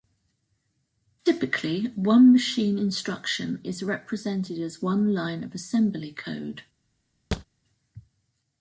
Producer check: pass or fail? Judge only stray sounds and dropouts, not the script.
fail